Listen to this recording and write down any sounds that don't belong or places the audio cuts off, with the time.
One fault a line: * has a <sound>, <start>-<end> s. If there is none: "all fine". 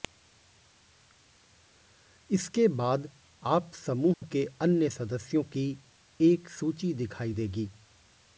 * has a dropout, 4.1-4.2 s